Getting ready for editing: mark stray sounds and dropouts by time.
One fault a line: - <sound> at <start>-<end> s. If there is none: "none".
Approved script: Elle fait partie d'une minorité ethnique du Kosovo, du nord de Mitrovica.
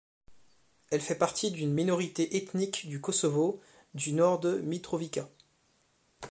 none